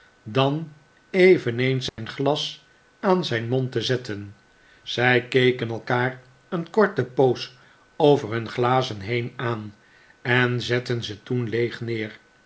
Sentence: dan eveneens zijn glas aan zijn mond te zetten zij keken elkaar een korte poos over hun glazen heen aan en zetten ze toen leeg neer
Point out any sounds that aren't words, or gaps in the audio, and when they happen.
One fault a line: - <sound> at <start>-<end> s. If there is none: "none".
- dropout at 1.9-2.0 s